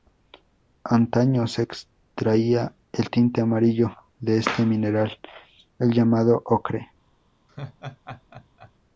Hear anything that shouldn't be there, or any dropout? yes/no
yes